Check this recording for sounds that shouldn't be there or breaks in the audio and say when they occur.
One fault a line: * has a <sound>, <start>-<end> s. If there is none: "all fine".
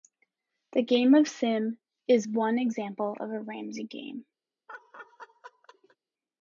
* has a laugh, 4.7-6.0 s